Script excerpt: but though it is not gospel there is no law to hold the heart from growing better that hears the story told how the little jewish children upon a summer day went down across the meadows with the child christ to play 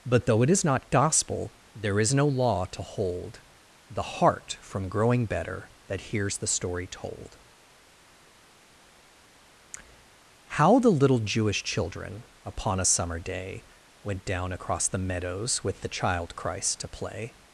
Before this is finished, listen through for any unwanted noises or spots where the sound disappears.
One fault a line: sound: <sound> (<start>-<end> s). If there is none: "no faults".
no faults